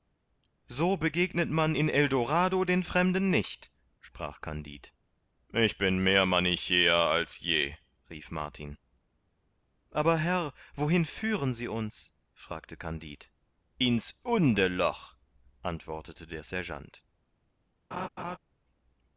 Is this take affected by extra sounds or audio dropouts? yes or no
yes